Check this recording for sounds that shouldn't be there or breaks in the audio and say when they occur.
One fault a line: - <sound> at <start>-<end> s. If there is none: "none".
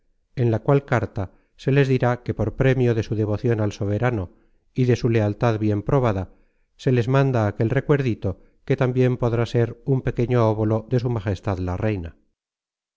none